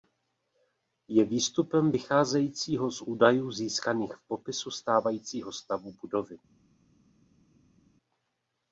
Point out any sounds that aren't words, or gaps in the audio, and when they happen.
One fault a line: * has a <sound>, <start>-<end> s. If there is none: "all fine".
all fine